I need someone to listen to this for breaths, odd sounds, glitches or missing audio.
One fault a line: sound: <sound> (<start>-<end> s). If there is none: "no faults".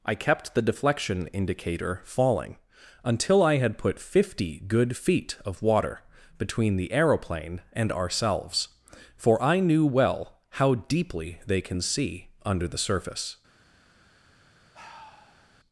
sound: sigh (14.7-15.6 s)